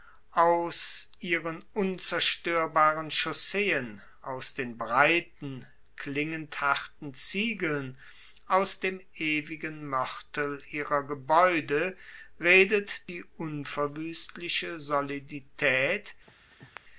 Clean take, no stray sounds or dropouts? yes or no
no